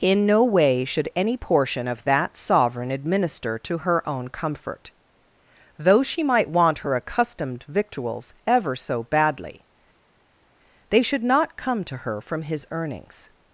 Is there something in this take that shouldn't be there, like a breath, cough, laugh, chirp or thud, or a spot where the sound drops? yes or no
no